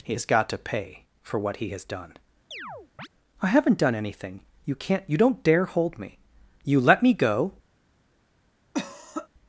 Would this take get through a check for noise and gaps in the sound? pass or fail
fail